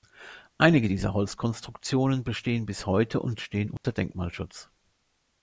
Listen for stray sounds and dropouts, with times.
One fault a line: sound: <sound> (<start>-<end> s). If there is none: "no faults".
sound: dropout (3.8-3.8 s)